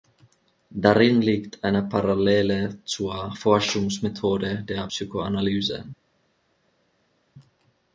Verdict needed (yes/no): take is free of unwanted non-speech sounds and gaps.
yes